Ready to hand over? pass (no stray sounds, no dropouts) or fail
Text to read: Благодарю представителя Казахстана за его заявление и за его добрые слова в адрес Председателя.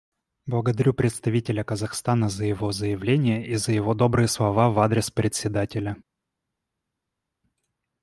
pass